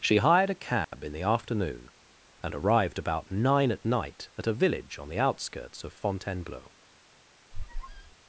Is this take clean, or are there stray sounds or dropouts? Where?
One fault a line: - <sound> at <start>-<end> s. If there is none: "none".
- dropout at 0.8-0.9 s
- squeak at 7.5-8.2 s